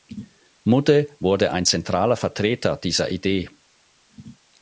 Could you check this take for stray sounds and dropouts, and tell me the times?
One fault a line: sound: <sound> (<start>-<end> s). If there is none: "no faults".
no faults